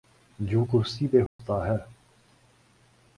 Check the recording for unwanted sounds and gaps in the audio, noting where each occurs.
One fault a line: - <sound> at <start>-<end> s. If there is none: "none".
- dropout at 1.3-1.4 s